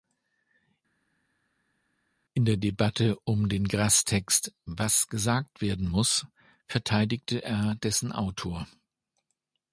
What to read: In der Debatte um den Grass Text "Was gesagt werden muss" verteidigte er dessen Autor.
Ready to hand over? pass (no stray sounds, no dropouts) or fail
pass